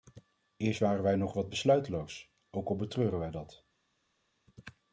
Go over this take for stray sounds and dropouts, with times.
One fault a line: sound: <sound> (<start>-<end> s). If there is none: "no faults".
no faults